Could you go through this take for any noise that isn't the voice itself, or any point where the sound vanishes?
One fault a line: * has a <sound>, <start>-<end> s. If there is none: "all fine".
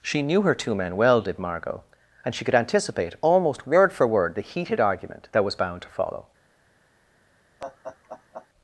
* has a laugh, 7.6-8.5 s